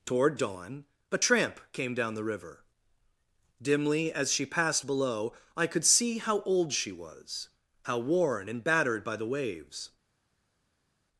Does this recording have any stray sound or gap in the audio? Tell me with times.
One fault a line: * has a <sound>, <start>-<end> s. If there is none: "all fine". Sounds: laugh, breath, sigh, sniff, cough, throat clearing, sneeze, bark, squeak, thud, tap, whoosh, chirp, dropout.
all fine